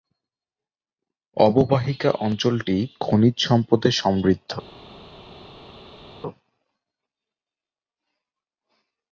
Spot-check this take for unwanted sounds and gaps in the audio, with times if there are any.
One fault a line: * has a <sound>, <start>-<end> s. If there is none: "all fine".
all fine